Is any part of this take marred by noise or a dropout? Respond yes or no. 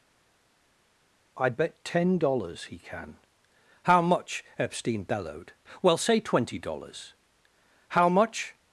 no